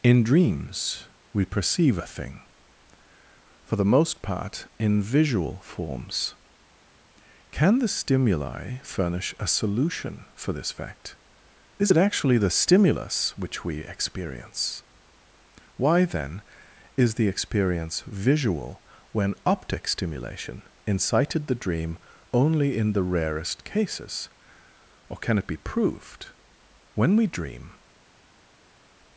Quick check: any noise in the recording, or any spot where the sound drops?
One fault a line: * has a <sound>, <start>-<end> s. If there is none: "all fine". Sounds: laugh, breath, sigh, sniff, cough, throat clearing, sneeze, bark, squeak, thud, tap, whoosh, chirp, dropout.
all fine